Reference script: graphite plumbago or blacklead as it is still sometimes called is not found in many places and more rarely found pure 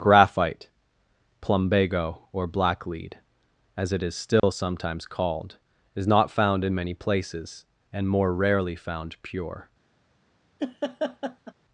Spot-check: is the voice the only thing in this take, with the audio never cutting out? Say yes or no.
no